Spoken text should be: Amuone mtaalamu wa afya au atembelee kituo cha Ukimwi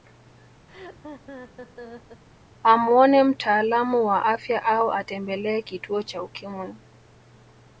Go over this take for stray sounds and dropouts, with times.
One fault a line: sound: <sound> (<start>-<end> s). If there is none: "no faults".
sound: laugh (0.7-2.2 s)